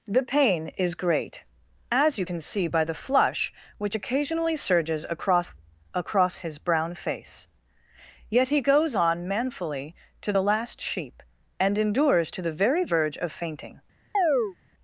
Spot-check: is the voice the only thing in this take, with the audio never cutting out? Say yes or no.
no